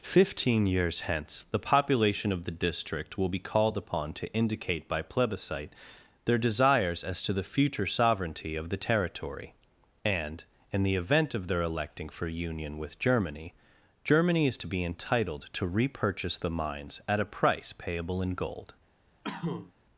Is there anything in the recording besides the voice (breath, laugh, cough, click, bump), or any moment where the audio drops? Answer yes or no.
yes